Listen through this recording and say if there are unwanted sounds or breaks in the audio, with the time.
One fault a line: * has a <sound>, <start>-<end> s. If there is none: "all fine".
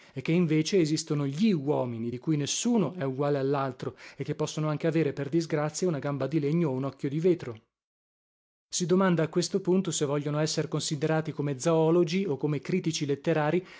all fine